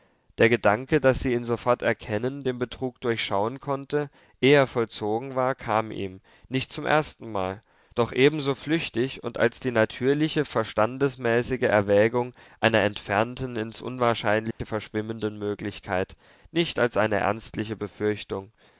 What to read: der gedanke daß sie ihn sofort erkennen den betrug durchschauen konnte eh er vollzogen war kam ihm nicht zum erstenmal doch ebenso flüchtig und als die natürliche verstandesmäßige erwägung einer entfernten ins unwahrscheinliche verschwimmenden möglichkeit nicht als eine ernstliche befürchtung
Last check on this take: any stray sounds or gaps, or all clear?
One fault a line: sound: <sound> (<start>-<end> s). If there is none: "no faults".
sound: dropout (14.5-14.6 s)